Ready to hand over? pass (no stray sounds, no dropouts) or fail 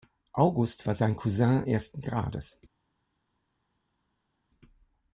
pass